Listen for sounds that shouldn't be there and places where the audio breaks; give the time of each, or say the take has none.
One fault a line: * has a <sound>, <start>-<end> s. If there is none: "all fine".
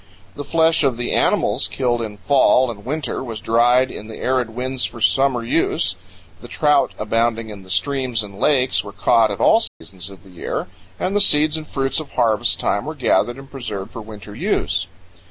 * has a dropout, 9.7-9.8 s